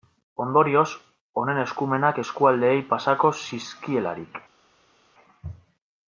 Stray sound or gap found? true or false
false